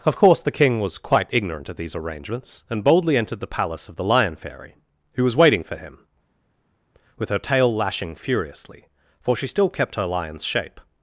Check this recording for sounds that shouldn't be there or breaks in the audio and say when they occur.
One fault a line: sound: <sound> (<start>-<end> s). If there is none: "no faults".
no faults